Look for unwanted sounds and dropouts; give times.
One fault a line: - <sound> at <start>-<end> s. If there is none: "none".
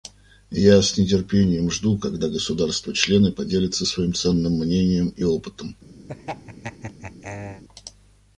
- laugh at 6.1-7.6 s